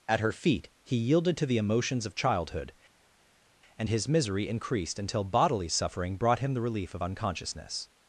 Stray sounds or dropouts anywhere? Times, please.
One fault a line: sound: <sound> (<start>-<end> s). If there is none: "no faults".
no faults